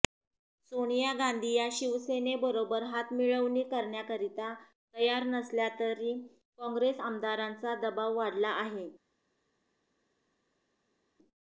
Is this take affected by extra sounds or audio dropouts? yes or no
no